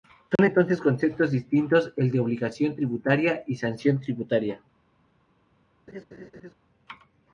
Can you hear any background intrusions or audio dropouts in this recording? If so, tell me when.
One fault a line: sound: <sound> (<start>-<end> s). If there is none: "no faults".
sound: dropout (0.4-0.4 s)
sound: laugh (5.9-6.5 s)